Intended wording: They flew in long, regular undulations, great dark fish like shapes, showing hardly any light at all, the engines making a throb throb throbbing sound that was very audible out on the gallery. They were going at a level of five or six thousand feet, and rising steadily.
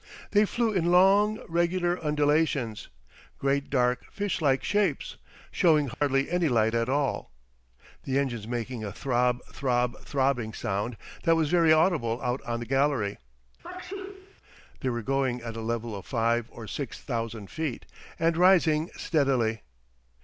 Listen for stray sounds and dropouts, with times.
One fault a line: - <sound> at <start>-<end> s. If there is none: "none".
- dropout at 5.9-6.0 s
- sneeze at 13.6-14.3 s